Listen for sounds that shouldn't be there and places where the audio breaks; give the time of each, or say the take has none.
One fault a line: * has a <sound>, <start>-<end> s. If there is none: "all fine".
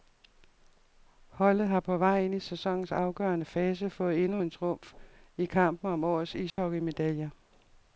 * has a dropout, 6.5-6.6 s